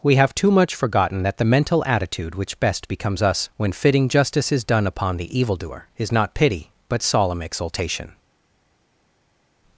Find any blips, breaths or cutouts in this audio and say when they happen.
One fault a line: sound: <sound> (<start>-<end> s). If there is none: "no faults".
no faults